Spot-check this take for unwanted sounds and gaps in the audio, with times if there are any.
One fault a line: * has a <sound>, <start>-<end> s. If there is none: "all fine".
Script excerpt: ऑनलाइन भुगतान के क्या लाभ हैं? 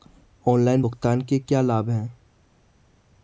all fine